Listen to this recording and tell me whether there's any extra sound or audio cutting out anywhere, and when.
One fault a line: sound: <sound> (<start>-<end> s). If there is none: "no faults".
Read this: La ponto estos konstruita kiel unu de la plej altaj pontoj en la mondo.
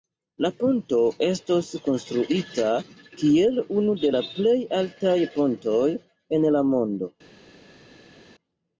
no faults